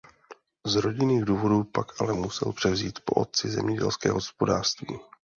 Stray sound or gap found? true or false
false